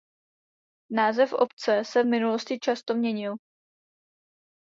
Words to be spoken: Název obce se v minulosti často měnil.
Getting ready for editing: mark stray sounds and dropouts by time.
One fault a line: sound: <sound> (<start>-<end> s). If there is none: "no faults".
no faults